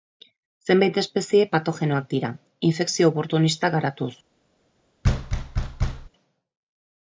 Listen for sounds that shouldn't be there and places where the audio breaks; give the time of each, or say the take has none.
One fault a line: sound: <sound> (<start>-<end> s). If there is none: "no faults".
sound: thud (5.0-6.1 s)